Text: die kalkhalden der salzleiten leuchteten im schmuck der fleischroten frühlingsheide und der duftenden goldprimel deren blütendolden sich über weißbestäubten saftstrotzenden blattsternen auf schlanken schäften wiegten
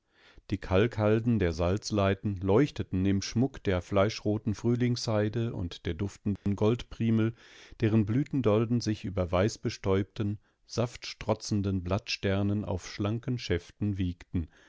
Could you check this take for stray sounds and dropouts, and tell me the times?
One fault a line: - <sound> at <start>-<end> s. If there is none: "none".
- dropout at 6.4-6.5 s